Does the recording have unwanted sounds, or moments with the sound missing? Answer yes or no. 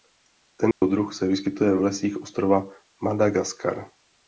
yes